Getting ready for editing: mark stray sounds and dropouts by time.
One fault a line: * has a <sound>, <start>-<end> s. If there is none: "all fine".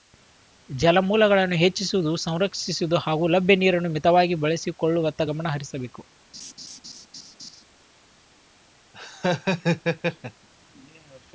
* has a laugh, 6.3-7.6 s
* has a laugh, 8.9-10.5 s